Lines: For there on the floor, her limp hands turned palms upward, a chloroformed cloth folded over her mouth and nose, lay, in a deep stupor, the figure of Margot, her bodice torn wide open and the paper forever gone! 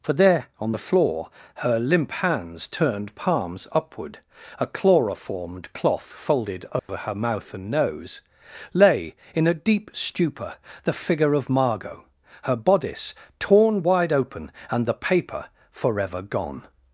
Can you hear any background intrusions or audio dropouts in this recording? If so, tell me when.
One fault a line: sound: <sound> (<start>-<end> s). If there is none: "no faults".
sound: dropout (6.8-6.9 s)